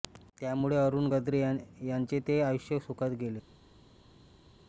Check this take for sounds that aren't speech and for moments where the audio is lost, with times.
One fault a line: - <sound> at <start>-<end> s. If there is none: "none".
none